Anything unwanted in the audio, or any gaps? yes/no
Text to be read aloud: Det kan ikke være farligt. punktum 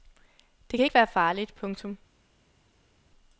no